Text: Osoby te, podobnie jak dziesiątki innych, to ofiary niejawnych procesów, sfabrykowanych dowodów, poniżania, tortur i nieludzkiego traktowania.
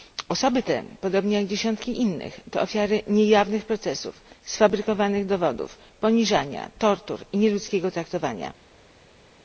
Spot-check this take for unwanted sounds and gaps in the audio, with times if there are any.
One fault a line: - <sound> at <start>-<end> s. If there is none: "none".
none